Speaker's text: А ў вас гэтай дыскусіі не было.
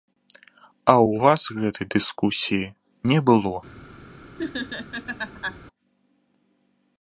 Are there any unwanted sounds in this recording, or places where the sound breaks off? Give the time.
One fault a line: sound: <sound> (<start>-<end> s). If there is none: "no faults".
sound: laugh (4.4-5.6 s)